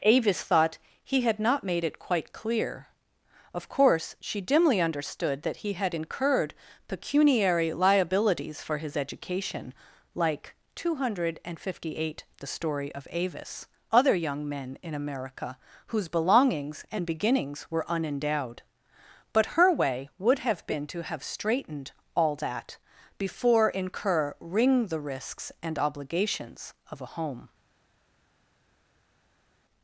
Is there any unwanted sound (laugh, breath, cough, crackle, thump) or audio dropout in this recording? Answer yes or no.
no